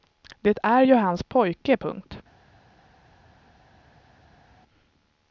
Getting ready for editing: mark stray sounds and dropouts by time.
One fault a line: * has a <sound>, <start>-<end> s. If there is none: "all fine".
all fine